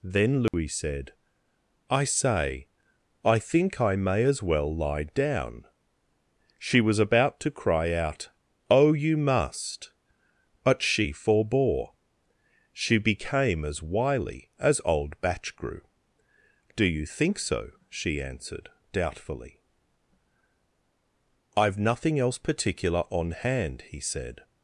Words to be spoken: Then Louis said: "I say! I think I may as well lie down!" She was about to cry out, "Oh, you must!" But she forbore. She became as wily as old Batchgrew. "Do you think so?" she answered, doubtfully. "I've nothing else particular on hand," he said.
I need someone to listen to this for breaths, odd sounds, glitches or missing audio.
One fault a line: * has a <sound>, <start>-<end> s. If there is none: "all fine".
* has a dropout, 0.5-0.5 s